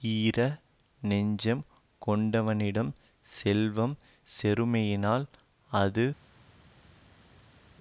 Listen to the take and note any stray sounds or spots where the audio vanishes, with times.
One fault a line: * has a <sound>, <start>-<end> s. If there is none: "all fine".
all fine